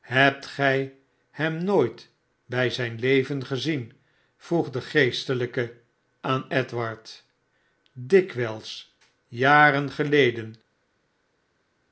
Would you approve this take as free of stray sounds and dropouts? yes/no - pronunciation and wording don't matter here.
yes